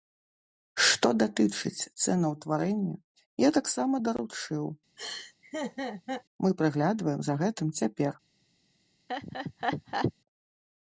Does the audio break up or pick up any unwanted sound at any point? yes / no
yes